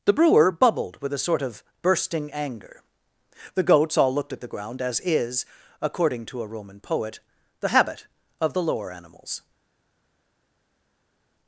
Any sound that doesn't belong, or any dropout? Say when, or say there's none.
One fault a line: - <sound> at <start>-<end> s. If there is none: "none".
none